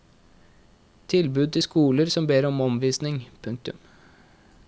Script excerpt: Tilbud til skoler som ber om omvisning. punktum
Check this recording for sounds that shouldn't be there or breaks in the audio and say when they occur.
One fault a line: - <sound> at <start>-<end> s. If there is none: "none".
none